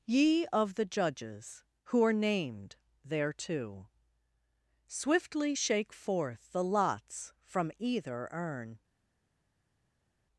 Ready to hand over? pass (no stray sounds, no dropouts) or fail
pass